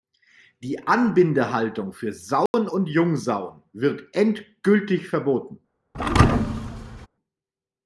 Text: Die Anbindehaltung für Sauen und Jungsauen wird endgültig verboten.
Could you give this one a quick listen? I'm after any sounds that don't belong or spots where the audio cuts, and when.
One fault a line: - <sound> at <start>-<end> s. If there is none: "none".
- dropout at 2.5-2.5 s
- thud at 5.9-7.1 s